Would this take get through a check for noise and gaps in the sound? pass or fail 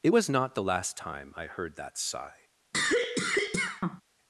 fail